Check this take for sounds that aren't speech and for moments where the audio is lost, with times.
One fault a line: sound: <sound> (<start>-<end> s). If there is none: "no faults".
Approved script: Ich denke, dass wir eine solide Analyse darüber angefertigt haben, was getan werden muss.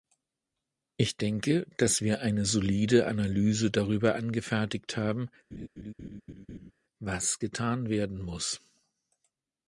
sound: laugh (5.5-6.7 s)